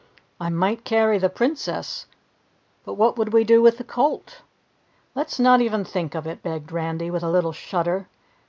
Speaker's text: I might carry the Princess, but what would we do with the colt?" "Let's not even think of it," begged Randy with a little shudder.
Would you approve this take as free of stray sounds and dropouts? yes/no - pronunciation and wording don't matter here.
yes